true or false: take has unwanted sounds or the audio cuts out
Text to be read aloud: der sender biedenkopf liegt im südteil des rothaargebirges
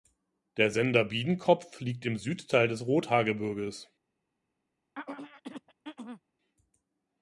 true